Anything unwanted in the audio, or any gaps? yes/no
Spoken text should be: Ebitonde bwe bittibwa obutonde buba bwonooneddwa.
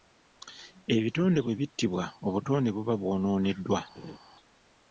yes